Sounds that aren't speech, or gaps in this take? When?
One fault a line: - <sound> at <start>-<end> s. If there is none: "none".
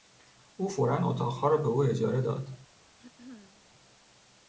- throat clearing at 3.0-3.6 s